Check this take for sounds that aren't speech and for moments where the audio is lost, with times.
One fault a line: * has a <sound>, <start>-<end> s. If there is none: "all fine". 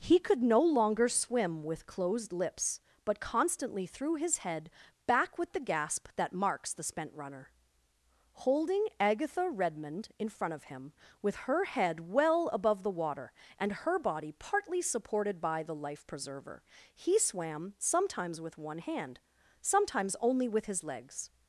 all fine